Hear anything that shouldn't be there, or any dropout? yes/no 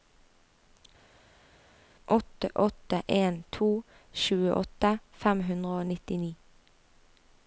no